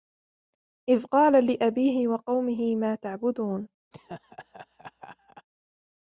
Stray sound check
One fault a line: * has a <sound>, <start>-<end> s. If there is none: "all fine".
* has a laugh, 3.9-5.5 s